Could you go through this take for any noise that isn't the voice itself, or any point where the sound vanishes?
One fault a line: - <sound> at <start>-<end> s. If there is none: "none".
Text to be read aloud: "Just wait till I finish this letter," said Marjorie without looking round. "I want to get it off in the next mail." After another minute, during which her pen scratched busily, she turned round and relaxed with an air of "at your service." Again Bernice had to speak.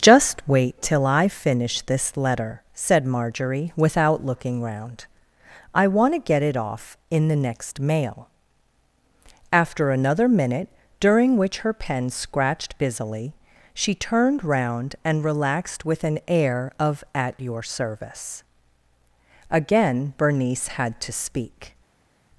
none